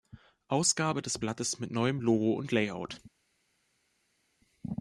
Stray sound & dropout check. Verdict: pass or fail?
pass